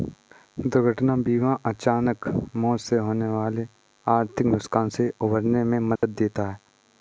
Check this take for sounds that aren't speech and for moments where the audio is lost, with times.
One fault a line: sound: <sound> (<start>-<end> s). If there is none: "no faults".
sound: dropout (6.0-6.0 s)